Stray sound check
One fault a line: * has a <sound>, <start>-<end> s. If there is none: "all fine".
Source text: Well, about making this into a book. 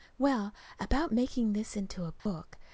* has a dropout, 2.2-2.3 s